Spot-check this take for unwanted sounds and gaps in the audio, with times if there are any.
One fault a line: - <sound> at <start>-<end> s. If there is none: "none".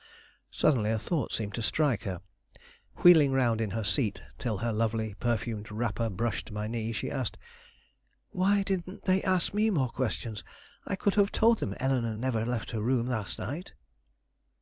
none